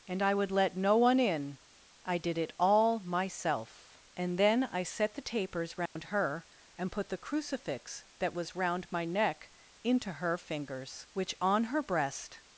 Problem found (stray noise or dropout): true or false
true